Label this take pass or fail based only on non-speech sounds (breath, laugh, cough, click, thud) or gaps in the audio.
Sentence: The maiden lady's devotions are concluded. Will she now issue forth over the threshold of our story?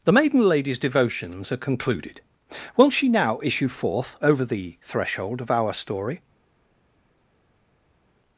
pass